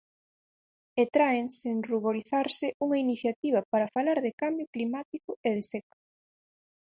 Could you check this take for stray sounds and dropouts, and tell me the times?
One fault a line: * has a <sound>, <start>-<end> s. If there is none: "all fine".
all fine